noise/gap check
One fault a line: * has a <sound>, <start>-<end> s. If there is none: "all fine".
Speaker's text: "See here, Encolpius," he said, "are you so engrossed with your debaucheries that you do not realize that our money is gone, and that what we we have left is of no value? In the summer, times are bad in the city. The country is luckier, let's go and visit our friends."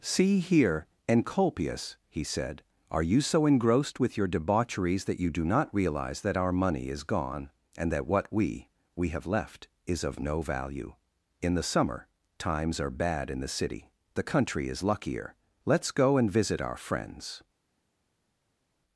all fine